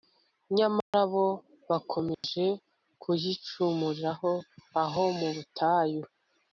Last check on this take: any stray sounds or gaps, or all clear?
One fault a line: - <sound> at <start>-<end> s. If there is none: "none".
- dropout at 0.8-0.9 s
- dropout at 2.1-2.2 s